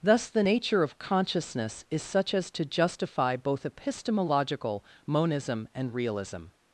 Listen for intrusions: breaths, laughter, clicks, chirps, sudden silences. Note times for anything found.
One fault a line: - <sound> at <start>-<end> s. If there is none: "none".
none